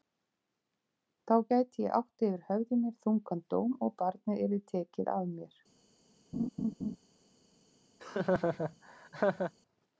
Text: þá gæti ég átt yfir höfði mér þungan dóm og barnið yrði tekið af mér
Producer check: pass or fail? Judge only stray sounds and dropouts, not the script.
fail